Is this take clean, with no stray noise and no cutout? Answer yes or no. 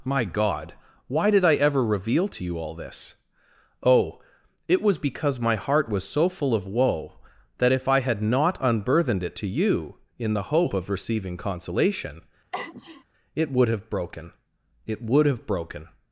no